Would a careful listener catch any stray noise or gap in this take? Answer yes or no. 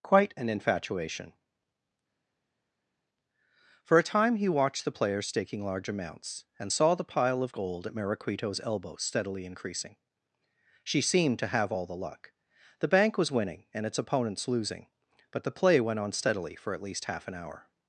no